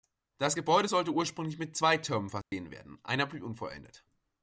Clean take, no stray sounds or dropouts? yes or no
no